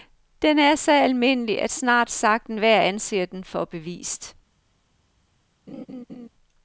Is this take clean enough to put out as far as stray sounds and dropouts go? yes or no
no